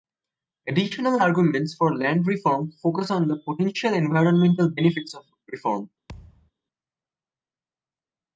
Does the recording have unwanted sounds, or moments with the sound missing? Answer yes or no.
yes